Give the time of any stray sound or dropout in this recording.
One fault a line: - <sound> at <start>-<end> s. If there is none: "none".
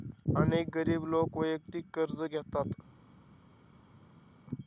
none